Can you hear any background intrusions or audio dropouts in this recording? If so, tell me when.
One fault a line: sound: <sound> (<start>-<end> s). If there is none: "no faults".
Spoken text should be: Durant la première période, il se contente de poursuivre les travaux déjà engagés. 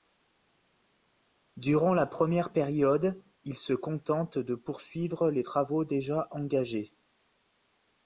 no faults